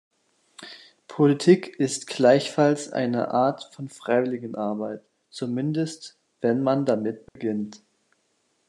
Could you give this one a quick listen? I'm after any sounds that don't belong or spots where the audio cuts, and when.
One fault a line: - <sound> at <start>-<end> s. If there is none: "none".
- dropout at 7.3-7.4 s